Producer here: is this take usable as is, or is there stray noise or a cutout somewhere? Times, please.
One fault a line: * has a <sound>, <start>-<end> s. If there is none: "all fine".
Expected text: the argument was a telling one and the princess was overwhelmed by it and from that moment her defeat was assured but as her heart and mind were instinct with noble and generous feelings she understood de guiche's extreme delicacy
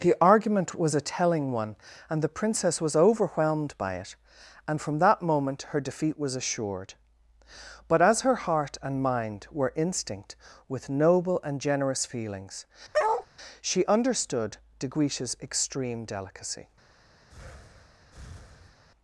* has a bark, 12.9-13.3 s
* has a breath, 17.3-18.8 s